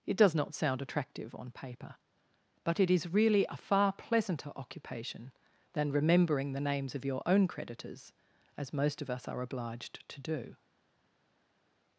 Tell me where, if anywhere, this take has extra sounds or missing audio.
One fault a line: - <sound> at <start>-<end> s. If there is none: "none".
none